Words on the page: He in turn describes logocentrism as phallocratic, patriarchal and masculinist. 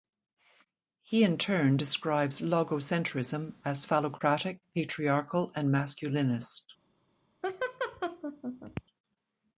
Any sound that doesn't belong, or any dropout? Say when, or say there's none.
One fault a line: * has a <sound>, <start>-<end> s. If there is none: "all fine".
* has a laugh, 7.4-8.8 s